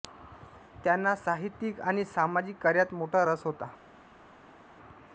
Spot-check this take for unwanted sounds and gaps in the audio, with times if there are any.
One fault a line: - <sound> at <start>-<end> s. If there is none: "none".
none